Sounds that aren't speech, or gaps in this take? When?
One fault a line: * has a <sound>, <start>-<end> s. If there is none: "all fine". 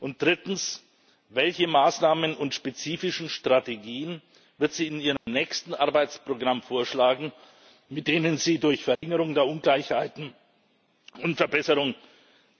* has a dropout, 5.2-5.3 s
* has a dropout, 9.0-9.0 s